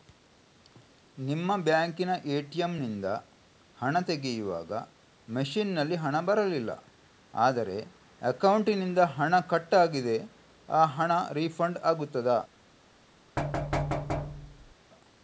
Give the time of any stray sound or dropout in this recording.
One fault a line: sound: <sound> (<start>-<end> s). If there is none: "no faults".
sound: thud (13.4-14.8 s)